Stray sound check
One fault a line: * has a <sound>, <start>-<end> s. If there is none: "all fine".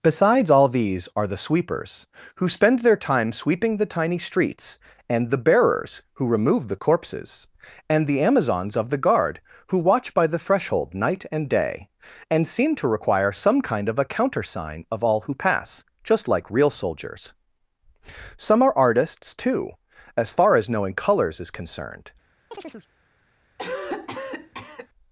* has a chirp, 22.5-22.9 s
* has a cough, 23.6-24.9 s